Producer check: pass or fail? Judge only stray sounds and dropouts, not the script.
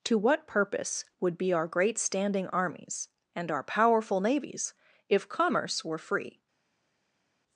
pass